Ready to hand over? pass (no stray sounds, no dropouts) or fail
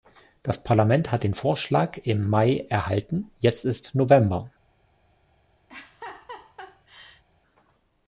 fail